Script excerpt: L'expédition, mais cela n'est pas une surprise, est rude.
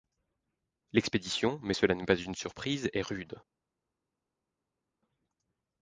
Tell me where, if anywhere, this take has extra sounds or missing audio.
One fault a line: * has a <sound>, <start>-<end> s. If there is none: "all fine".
all fine